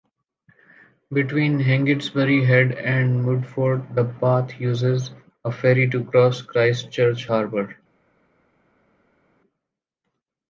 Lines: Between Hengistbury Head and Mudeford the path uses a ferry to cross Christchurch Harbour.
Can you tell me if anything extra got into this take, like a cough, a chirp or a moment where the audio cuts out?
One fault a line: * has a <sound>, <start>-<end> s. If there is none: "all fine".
all fine